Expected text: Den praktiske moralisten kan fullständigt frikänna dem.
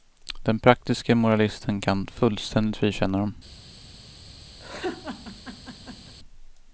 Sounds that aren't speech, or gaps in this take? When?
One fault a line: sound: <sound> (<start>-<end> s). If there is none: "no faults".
sound: laugh (4.6-6.1 s)